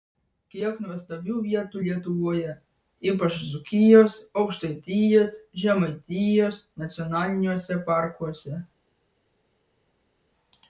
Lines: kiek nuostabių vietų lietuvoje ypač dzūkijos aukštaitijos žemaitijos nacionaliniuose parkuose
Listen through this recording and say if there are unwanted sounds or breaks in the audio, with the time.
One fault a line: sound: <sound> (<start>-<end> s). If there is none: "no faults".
no faults